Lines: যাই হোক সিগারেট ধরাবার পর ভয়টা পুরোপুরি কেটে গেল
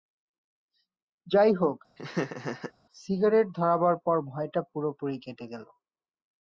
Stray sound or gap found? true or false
true